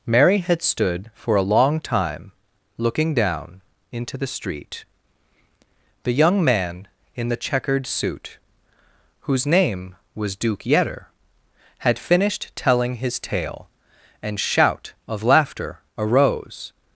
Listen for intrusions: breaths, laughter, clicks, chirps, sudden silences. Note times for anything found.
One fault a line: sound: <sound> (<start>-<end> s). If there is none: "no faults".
no faults